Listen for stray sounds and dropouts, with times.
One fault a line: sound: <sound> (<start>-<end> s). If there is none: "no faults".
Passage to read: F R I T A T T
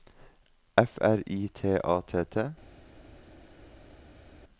no faults